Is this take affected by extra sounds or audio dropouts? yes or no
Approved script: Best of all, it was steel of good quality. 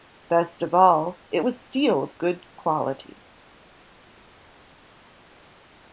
no